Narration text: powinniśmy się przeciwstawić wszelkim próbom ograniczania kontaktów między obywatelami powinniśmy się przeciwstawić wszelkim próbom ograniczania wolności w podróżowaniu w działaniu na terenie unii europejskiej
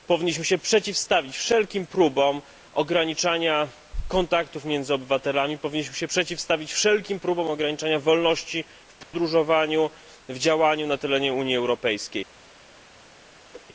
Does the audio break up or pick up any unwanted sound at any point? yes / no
yes